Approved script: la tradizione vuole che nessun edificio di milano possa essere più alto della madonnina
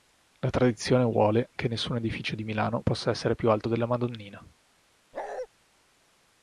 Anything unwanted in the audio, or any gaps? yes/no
yes